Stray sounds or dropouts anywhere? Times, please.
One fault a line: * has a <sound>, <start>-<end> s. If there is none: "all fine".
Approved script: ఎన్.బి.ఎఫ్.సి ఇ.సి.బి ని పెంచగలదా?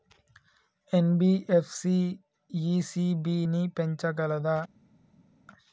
all fine